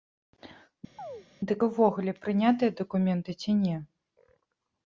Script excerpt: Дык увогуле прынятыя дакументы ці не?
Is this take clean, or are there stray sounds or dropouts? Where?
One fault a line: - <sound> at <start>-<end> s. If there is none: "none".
- chirp at 1.0-1.3 s